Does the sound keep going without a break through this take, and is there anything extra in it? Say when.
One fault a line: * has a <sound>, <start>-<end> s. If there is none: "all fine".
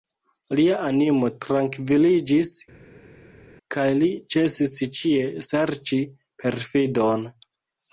all fine